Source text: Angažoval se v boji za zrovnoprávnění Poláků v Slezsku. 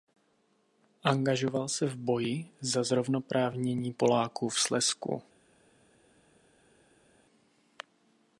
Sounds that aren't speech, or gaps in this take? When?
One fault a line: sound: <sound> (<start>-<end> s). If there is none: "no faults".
no faults